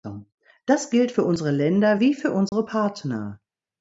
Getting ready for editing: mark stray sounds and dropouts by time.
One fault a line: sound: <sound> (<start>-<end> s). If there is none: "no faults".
sound: dropout (2.5-2.5 s)